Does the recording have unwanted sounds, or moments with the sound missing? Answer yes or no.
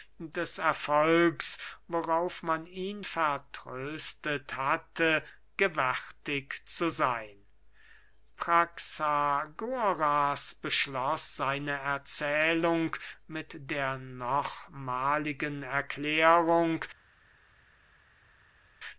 no